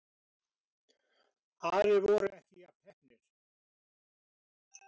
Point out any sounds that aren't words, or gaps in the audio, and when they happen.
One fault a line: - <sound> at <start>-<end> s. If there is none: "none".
none